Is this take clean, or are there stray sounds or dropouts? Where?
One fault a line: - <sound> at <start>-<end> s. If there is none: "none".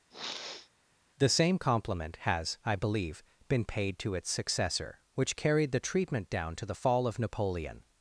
- sniff at 0.1-0.7 s